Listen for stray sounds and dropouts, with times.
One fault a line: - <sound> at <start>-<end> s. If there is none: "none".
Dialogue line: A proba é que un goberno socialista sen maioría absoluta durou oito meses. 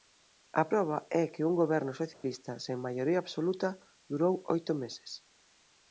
- dropout at 2.1-2.2 s